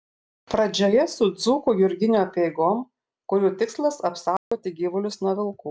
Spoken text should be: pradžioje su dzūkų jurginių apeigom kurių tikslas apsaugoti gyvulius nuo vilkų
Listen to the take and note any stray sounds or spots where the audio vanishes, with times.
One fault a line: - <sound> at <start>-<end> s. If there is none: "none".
- dropout at 4.4-4.5 s